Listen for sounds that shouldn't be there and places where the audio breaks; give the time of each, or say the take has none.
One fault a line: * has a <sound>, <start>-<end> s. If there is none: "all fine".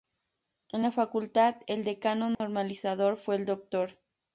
* has a dropout, 2.3-2.4 s